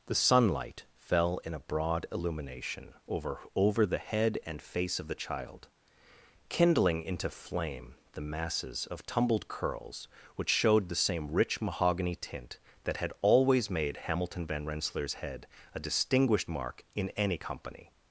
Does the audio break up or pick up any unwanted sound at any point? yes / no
no